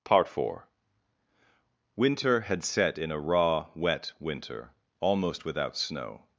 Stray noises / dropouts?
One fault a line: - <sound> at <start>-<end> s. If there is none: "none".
none